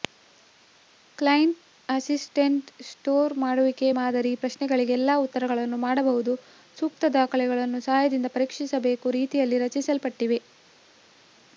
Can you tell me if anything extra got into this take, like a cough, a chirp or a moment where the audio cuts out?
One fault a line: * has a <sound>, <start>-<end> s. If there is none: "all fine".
all fine